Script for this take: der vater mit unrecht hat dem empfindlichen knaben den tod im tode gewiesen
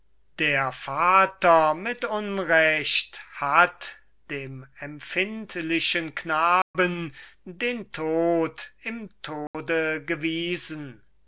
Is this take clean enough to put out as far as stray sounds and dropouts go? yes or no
no